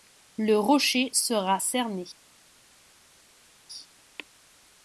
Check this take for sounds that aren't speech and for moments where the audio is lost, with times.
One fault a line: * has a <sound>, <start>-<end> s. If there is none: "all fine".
all fine